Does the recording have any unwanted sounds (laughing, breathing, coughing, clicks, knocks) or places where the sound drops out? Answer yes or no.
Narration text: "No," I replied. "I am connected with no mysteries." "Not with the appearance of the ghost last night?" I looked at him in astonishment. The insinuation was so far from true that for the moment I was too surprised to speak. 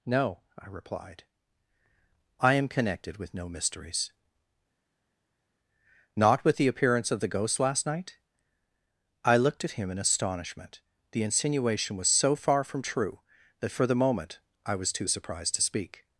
no